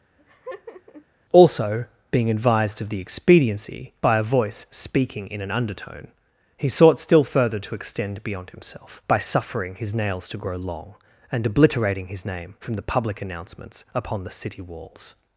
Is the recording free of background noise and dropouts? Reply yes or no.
no